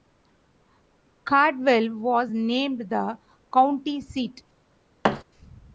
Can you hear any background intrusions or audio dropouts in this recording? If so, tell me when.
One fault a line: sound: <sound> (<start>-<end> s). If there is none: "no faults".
sound: thud (5.0-5.2 s)